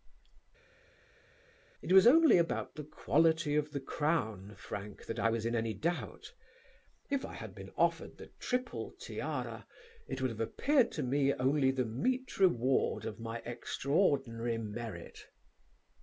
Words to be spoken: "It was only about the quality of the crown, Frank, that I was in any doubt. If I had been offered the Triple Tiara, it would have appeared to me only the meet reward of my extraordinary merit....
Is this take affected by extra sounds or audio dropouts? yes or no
no